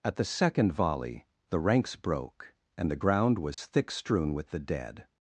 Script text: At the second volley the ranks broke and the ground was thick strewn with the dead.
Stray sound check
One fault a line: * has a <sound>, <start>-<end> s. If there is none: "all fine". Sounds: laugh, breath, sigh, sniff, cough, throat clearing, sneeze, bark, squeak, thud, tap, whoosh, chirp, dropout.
* has a dropout, 3.5-3.6 s